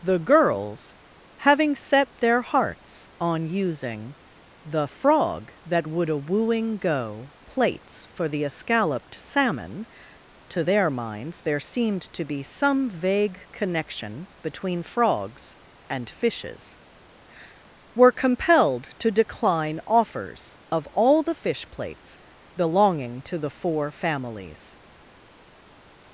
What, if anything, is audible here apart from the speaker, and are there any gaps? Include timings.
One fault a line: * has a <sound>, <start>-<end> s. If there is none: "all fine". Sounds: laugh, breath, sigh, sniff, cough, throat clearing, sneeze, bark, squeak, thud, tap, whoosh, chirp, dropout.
all fine